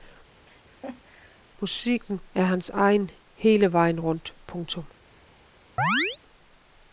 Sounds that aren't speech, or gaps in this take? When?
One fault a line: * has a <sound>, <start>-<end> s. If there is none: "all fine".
* has a laugh, 0.4-1.4 s
* has a chirp, 5.8-6.2 s